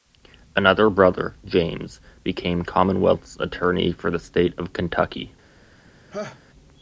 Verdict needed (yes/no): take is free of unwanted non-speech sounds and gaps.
no